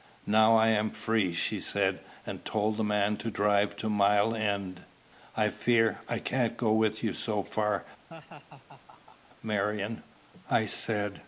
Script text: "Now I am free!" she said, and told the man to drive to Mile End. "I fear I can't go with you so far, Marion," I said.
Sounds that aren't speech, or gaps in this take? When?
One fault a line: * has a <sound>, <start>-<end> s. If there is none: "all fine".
* has a laugh, 8.1-9.3 s